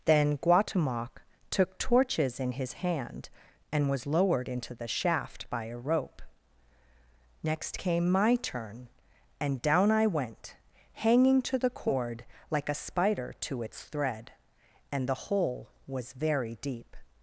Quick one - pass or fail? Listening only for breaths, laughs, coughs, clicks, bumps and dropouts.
pass